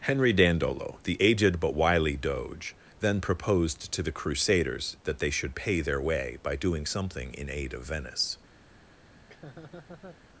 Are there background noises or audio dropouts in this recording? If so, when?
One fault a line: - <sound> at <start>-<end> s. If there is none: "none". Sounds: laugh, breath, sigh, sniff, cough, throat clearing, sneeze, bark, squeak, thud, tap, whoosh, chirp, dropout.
- laugh at 9.1-10.2 s